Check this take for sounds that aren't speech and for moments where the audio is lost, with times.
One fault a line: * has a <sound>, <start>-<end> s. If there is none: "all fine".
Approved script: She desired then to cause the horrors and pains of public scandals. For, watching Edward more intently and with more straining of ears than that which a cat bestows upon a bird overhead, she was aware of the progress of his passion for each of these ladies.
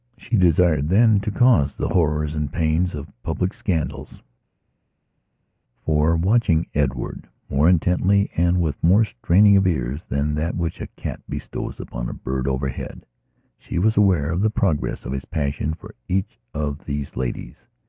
all fine